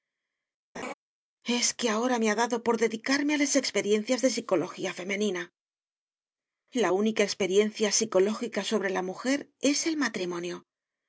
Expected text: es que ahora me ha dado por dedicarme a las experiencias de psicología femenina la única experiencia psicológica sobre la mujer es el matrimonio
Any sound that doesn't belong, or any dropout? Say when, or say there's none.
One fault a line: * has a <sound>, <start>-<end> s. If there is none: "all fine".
* has a laugh, 0.7-0.9 s